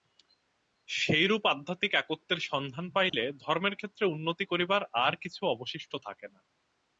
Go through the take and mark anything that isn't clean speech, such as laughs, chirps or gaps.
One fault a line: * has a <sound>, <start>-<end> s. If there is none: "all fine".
* has a dropout, 3.1-3.1 s